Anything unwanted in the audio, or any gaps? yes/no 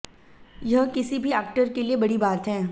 no